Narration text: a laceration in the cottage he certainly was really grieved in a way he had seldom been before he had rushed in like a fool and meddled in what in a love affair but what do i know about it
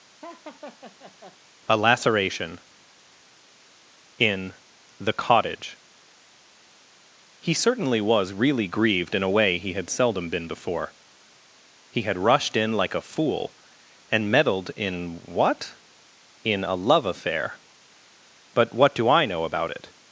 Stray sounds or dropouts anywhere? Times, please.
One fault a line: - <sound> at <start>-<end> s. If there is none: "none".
- laugh at 0.2-1.4 s